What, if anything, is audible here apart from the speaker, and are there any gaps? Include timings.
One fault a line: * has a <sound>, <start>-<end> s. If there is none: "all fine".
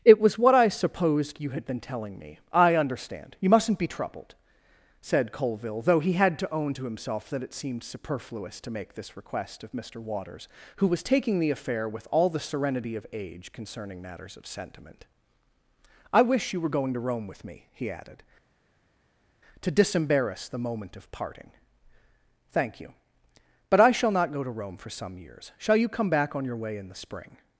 all fine